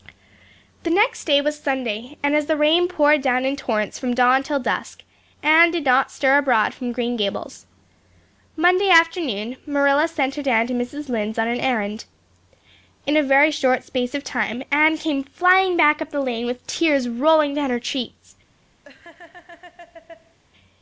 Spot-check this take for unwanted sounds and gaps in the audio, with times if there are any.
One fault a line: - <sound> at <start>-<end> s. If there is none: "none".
- laugh at 18.8-20.4 s